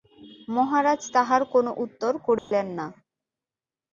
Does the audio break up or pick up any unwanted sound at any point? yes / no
yes